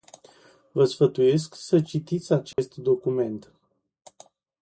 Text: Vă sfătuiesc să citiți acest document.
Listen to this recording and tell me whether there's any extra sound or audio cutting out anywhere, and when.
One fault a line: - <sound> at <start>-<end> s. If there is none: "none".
- dropout at 2.5-2.6 s